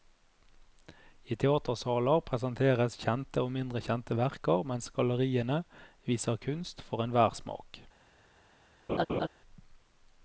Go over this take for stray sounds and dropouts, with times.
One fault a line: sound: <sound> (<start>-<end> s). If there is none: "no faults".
sound: laugh (8.9-9.3 s)